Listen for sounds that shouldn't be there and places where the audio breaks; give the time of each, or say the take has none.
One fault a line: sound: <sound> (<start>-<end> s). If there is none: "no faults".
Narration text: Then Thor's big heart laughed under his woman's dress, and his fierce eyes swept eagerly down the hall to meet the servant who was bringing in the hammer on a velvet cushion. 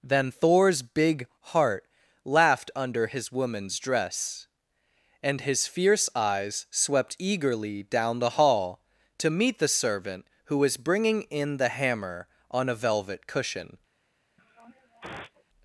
sound: sniff (14.4-15.4 s)